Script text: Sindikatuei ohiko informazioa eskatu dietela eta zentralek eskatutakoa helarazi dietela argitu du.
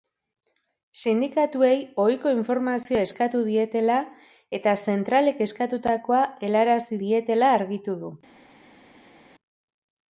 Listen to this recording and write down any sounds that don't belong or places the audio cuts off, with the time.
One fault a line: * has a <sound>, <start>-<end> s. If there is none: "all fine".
all fine